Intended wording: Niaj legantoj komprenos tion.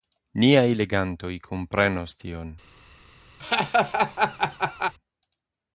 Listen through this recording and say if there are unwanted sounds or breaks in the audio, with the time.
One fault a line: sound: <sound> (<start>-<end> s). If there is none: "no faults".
sound: laugh (3.4-4.9 s)